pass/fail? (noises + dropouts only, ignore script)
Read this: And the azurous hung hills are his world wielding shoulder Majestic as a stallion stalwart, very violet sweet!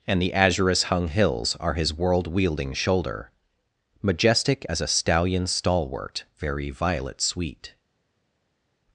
pass